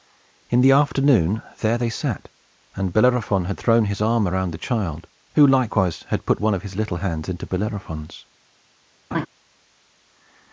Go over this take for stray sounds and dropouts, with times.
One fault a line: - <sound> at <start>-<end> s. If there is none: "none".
- laugh at 9.1-9.3 s